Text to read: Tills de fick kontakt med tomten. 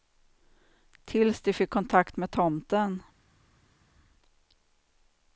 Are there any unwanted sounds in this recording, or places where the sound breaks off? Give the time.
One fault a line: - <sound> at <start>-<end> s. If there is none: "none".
none